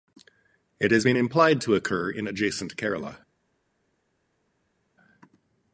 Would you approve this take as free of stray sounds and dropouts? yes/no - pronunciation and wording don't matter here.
yes